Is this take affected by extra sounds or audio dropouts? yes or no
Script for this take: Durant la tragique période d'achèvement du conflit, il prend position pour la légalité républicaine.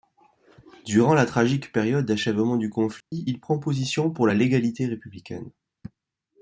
yes